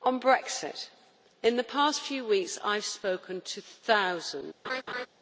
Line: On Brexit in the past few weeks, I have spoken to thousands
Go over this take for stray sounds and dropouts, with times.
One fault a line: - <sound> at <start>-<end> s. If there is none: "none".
- laugh at 4.6-5.1 s